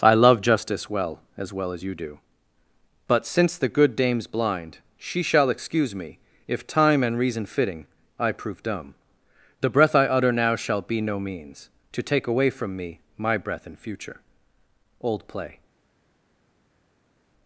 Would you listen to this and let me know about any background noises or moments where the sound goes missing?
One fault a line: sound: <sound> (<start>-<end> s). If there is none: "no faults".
no faults